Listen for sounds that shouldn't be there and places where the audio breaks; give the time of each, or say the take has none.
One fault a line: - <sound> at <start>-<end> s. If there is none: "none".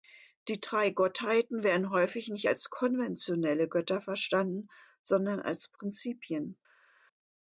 none